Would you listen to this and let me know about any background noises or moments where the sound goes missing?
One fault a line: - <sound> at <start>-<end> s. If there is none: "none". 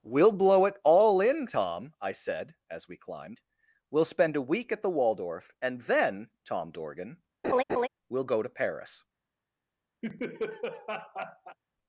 - laugh at 7.4-7.9 s
- laugh at 10.0-11.6 s